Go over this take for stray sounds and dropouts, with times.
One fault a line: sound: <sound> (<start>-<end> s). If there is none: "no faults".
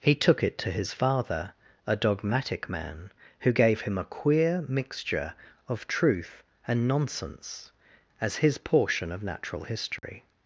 sound: dropout (10.0-10.0 s)